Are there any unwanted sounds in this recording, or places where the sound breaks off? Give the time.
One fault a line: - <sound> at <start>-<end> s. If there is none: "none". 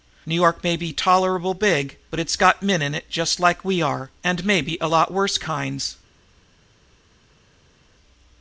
none